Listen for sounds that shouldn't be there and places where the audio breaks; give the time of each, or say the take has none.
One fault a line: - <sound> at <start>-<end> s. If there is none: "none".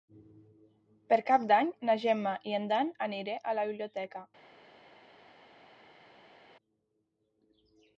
none